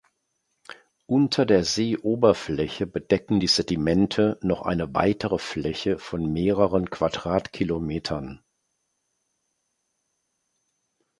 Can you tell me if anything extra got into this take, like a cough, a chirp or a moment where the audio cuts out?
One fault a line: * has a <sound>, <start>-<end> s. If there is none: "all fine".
all fine